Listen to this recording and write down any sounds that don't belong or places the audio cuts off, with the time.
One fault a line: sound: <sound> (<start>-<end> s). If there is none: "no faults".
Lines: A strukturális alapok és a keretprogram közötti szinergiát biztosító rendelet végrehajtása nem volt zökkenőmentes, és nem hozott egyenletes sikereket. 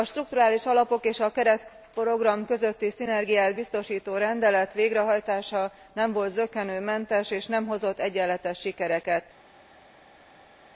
no faults